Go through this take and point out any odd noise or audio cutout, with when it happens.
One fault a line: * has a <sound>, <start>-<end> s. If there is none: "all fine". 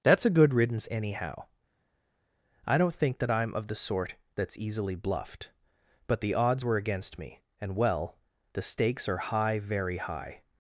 all fine